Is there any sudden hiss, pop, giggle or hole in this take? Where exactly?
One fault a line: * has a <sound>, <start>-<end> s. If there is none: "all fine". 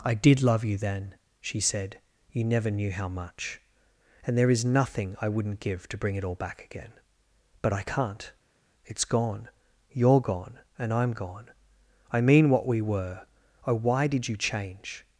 all fine